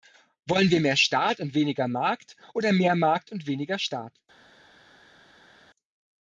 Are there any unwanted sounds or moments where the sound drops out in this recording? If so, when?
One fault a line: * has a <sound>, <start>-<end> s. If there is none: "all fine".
all fine